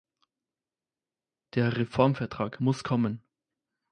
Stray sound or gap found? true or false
false